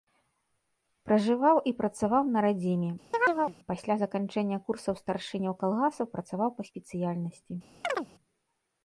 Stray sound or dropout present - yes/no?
yes